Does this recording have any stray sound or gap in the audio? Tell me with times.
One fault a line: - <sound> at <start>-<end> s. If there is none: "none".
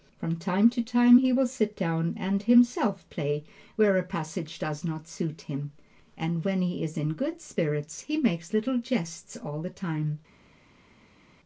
none